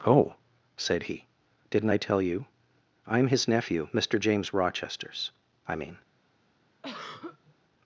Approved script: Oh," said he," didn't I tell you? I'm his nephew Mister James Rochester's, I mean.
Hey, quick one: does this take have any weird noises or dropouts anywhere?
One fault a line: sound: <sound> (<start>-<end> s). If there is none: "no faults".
sound: throat clearing (6.8-7.5 s)